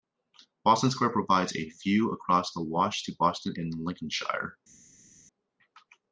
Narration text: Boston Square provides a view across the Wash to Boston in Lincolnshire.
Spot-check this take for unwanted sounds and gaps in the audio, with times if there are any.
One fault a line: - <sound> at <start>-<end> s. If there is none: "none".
none